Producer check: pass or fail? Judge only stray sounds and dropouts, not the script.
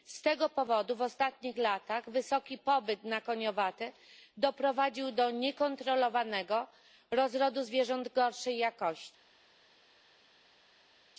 pass